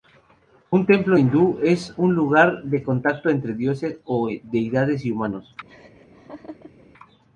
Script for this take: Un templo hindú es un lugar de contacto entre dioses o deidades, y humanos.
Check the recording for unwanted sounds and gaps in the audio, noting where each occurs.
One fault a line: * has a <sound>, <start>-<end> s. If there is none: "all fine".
* has a laugh, 5.7-6.9 s